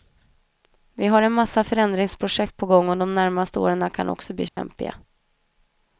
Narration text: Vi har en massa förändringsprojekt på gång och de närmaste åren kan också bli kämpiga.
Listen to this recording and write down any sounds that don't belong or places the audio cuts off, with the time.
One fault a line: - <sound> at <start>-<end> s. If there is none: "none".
- dropout at 4.5-4.6 s